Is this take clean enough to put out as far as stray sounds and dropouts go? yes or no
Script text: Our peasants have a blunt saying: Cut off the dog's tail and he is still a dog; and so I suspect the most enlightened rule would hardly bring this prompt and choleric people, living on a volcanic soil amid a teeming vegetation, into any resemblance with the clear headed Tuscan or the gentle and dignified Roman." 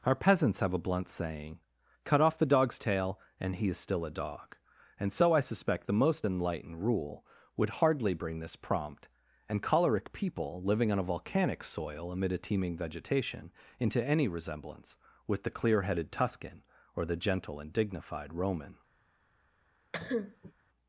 no